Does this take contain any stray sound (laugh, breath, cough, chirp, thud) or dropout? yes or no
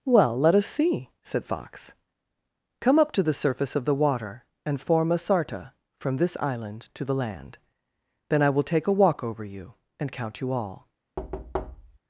yes